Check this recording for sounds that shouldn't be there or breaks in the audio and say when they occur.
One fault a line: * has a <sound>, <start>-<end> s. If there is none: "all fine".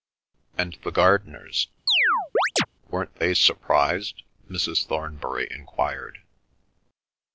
* has a chirp, 1.9-2.7 s